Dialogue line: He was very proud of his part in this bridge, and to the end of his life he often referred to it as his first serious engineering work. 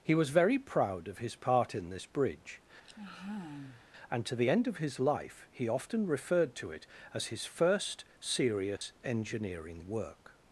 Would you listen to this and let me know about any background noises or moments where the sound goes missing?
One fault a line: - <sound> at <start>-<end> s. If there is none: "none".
- sigh at 2.8-3.8 s
- dropout at 8.8-8.8 s